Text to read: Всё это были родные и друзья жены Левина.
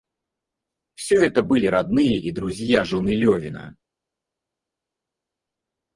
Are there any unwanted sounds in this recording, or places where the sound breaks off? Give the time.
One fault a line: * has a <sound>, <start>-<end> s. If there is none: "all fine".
all fine